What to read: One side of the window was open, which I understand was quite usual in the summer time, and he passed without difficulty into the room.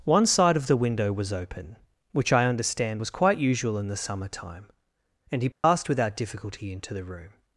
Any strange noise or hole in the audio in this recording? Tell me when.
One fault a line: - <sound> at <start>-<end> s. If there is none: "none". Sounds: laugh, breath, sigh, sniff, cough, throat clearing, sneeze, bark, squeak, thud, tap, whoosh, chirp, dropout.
- dropout at 5.5-5.6 s